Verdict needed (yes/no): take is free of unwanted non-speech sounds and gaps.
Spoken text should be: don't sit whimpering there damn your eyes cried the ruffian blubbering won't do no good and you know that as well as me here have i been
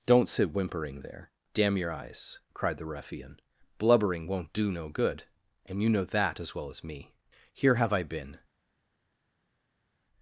yes